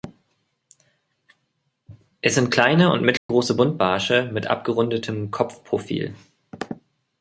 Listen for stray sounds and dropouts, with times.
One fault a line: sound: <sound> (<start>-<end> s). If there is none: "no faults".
sound: dropout (3.2-3.3 s)